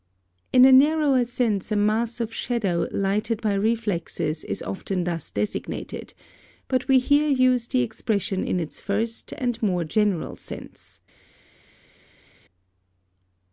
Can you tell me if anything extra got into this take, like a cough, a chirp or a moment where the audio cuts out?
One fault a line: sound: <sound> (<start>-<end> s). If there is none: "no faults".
no faults